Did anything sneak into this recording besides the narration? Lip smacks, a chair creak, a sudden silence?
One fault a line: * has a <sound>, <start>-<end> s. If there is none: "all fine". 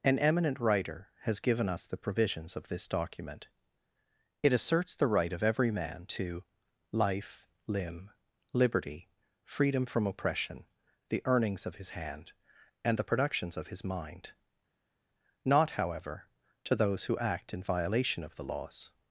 all fine